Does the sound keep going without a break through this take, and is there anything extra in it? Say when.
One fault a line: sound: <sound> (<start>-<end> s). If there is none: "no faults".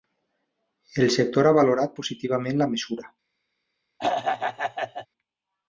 sound: throat clearing (4.0-5.1 s)